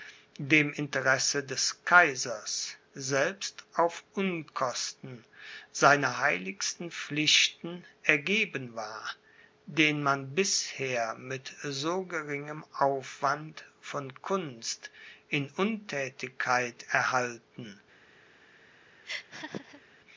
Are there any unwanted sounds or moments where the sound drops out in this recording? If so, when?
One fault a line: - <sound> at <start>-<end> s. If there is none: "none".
- laugh at 19.0-19.8 s